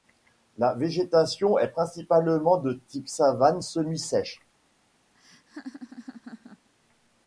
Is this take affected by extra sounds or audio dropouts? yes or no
yes